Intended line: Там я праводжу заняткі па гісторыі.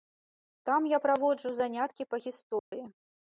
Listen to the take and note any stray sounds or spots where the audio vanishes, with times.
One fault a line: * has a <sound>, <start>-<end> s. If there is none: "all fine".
* has a dropout, 2.6-2.7 s